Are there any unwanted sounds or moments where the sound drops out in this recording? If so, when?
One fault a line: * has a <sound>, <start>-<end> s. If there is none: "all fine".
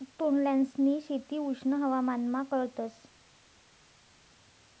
all fine